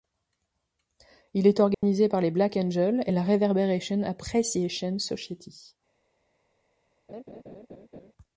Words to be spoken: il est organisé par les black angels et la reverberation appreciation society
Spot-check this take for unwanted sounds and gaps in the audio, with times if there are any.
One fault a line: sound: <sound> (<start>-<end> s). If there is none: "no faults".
sound: dropout (1.7-1.8 s)
sound: laugh (7.1-8.1 s)